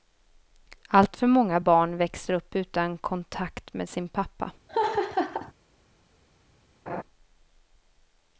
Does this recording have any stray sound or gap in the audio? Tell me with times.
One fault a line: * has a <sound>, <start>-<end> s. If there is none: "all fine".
* has a laugh, 4.7-5.5 s
* has a laugh, 6.9-7.0 s